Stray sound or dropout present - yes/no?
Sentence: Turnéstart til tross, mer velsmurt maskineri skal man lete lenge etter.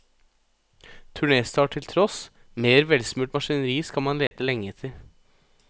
yes